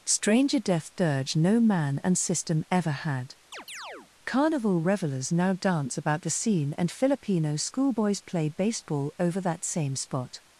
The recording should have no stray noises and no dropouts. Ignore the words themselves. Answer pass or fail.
fail